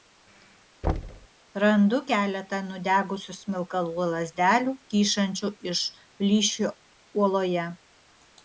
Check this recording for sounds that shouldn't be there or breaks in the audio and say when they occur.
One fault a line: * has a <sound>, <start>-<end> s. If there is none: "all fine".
* has a thud, 0.8-1.3 s